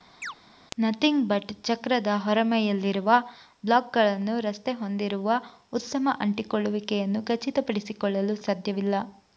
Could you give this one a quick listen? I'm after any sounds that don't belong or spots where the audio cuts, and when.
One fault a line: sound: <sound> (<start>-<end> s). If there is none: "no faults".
sound: chirp (0.2-0.3 s)